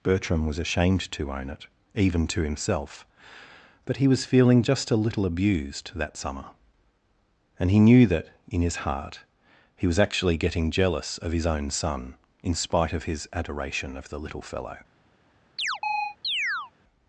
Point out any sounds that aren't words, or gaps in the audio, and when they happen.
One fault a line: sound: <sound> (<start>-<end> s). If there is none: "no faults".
sound: chirp (15.6-16.7 s)